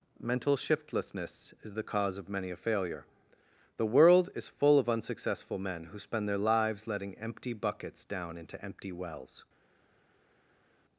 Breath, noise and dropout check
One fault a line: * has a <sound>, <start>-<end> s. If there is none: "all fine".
all fine